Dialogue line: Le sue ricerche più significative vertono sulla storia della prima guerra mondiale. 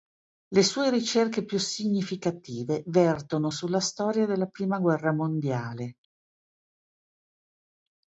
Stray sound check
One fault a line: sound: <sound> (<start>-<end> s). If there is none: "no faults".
no faults